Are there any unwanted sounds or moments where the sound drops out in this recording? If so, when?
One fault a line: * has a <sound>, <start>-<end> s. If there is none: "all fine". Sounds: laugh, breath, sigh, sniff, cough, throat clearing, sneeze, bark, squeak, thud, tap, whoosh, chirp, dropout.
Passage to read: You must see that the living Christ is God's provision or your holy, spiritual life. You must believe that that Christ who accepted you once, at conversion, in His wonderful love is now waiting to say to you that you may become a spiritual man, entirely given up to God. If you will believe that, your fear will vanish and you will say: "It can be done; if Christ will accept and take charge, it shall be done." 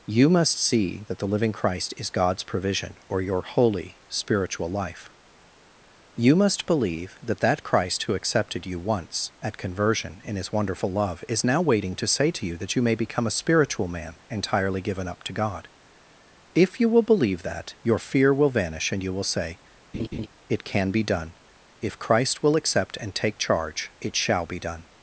* has a laugh, 19.9-20.3 s